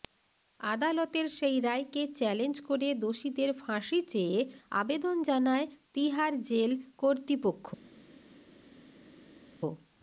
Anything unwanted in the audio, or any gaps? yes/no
no